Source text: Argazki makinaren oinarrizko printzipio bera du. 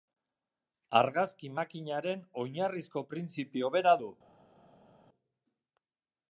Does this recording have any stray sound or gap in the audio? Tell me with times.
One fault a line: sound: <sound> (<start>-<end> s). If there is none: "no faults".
no faults